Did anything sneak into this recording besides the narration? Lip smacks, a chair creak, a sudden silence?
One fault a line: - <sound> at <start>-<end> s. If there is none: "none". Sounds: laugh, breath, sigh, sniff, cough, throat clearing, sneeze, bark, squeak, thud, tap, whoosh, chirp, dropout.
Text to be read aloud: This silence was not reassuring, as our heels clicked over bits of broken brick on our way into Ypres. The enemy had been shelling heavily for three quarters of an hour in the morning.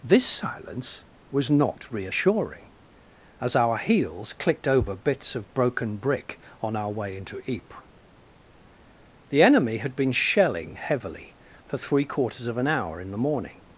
none